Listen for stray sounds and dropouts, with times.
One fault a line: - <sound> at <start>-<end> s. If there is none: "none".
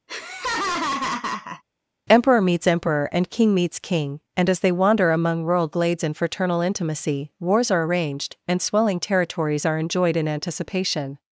- laugh at 0.1-1.6 s